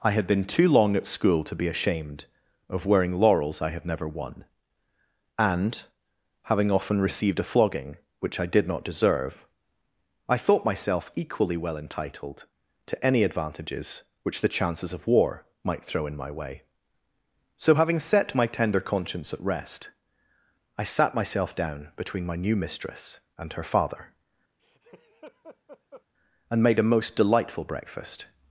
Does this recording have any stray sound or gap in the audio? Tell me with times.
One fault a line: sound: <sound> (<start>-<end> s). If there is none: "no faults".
sound: laugh (24.6-26.0 s)